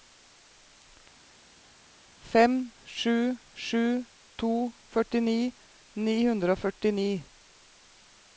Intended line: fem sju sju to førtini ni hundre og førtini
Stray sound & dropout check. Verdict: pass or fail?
pass